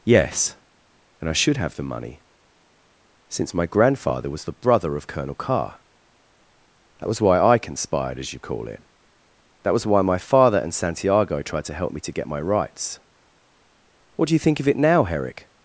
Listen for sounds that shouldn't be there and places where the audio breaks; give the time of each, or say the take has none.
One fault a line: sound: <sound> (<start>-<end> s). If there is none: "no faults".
no faults